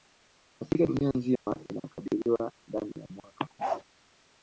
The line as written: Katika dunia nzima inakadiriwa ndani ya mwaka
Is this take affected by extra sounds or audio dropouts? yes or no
yes